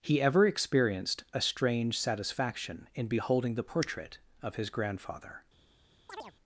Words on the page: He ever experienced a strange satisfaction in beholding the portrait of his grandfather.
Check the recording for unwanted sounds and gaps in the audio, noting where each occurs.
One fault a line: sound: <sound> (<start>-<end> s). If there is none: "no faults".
sound: chirp (6.1-6.3 s)